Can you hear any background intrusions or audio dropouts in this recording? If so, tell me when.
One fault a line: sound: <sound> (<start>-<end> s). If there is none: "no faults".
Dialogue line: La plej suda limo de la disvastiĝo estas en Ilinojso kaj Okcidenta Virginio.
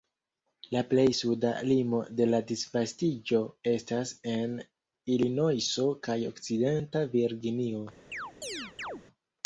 sound: chirp (8.1-9.0 s)